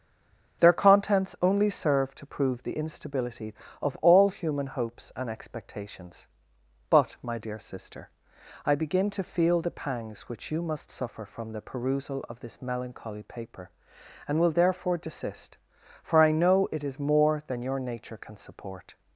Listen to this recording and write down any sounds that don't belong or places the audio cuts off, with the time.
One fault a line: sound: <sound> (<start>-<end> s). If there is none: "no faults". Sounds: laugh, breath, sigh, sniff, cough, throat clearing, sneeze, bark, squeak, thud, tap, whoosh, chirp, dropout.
no faults